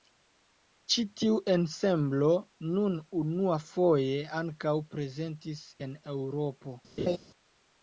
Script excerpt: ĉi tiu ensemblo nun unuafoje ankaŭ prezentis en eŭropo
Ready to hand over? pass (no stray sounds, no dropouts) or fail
fail